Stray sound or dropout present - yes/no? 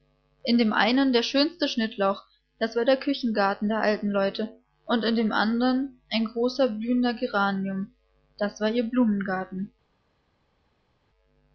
no